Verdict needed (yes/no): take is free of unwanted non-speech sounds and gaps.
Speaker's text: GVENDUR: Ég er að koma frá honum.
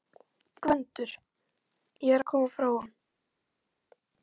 yes